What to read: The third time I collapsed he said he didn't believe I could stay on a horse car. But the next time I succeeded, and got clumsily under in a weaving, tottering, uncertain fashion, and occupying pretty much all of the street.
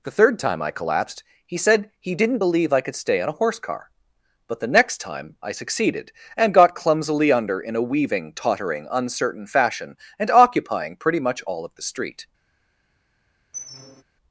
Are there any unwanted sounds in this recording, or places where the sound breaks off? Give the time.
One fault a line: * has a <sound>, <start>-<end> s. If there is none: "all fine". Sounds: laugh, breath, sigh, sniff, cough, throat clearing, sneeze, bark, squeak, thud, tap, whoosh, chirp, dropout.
* has a squeak, 13.5-14.0 s